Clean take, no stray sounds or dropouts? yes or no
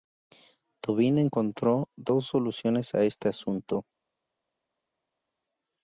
yes